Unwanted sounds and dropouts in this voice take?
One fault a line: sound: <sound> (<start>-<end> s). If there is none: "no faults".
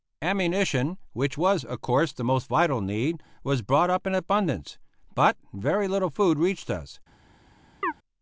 sound: chirp (7.8-7.9 s)